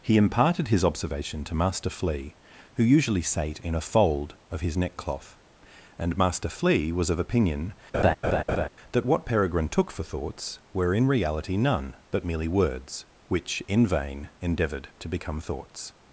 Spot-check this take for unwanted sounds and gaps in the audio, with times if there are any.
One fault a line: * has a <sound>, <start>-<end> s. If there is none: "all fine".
* has a laugh, 7.9-8.7 s